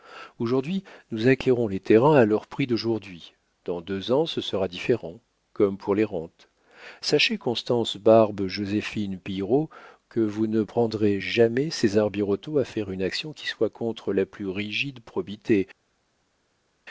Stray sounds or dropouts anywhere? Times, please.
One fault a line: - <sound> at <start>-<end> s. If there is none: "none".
none